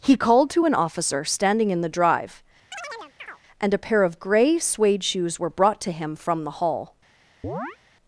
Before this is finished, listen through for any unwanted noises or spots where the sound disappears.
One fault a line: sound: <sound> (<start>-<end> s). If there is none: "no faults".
sound: chirp (2.7-3.4 s)
sound: chirp (7.4-7.8 s)